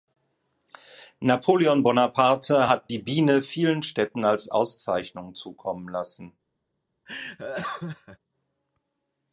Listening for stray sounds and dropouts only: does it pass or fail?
fail